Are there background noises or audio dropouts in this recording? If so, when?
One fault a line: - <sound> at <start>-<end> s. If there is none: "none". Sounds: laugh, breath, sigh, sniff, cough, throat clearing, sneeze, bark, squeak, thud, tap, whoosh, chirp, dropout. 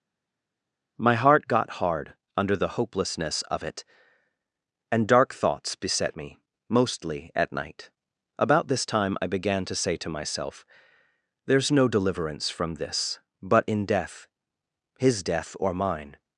none